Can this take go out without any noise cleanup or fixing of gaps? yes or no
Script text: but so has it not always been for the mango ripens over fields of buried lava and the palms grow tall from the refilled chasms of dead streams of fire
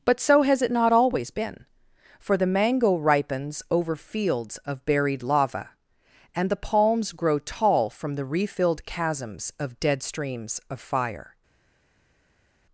yes